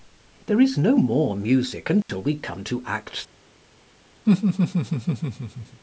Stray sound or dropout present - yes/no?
yes